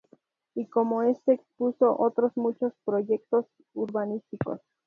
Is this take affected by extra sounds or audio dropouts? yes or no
no